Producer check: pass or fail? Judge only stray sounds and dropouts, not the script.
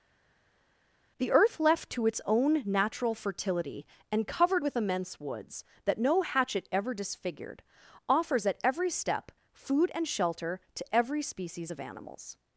pass